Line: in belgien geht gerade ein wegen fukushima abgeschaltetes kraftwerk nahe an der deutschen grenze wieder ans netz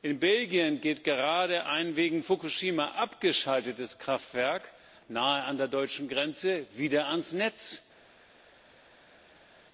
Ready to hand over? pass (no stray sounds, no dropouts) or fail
pass